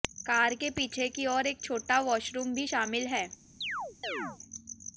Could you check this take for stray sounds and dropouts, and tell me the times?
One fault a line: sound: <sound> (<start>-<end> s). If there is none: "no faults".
sound: chirp (3.6-4.4 s)